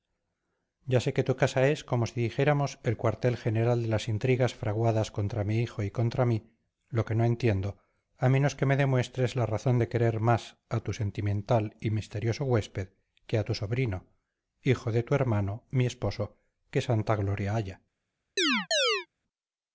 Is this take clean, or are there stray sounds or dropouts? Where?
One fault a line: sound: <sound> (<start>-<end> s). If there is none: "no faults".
sound: chirp (18.4-19.1 s)